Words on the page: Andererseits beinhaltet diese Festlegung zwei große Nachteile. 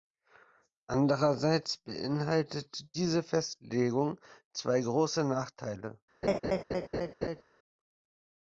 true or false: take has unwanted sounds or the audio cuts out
true